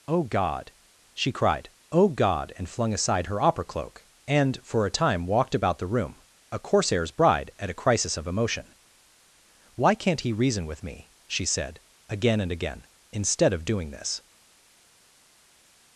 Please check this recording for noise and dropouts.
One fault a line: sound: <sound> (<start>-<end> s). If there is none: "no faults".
no faults